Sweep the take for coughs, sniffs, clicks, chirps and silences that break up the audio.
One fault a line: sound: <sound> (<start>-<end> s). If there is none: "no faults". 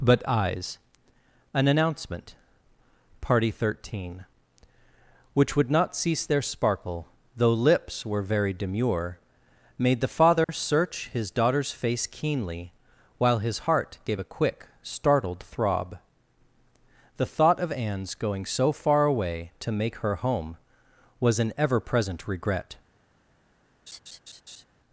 sound: dropout (10.4-10.5 s)
sound: laugh (23.9-24.6 s)